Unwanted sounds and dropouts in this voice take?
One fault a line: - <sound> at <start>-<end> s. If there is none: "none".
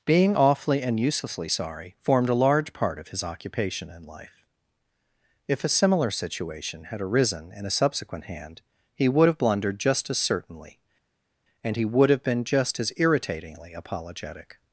none